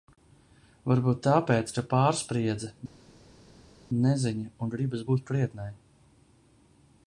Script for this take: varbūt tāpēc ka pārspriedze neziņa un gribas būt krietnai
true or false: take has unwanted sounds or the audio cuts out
false